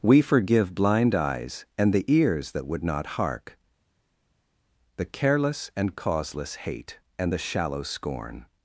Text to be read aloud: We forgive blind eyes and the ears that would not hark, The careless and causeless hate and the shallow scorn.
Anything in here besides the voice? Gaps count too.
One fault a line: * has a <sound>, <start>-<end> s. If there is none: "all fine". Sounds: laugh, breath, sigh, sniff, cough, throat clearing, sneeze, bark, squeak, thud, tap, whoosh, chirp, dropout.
all fine